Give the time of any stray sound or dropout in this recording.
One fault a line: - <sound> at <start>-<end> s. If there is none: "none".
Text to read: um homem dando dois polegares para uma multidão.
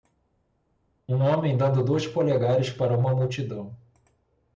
none